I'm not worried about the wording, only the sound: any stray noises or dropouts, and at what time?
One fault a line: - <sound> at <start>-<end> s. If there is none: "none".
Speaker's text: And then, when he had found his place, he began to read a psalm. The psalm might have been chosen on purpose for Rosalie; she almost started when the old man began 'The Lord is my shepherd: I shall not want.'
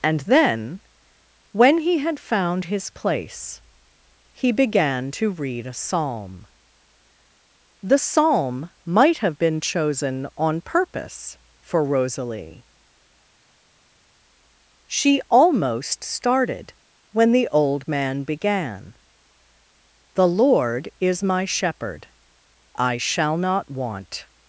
none